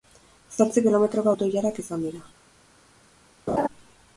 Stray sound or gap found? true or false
true